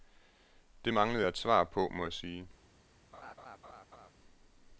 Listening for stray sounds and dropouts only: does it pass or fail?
fail